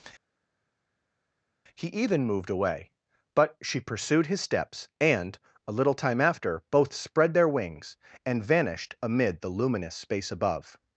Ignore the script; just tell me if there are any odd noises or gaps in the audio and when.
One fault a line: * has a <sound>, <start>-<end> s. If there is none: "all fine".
all fine